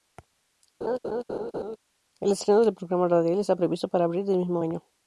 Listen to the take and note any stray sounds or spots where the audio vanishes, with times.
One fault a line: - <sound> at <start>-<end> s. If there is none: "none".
- laugh at 0.8-1.8 s